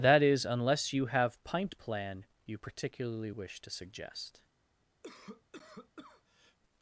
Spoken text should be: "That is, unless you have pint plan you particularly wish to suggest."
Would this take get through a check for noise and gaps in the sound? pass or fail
fail